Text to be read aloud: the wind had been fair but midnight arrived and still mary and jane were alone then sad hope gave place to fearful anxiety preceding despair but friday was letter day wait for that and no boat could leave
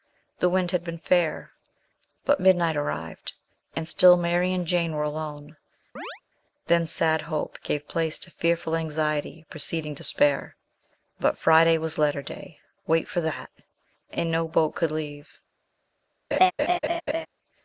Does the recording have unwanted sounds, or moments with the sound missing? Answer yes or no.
yes